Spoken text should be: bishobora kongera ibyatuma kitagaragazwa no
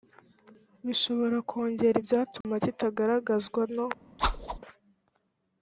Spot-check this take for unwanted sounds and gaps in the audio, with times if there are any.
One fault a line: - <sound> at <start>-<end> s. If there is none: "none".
- dropout at 2.4-2.4 s
- whoosh at 4.2-4.6 s